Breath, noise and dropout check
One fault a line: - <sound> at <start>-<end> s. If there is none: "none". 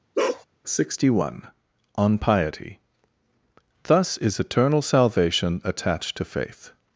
- bark at 0.1-0.4 s